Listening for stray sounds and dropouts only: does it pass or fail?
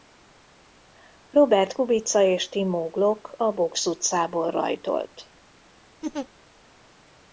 fail